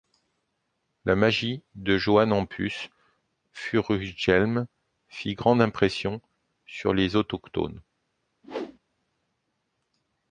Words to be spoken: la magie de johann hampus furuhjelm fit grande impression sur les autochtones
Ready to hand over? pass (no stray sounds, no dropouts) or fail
fail